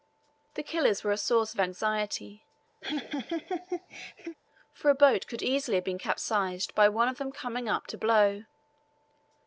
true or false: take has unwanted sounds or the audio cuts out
true